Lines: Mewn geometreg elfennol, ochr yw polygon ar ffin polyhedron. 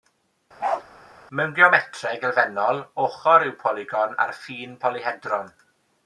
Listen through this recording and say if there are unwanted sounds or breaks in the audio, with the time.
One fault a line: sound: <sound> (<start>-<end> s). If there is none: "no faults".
sound: bark (0.6-0.8 s)